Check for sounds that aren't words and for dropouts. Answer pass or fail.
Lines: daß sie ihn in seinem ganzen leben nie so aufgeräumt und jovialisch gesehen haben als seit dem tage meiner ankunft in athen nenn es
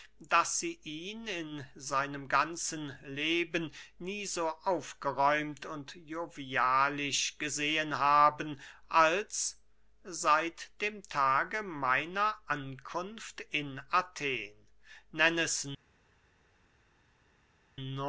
pass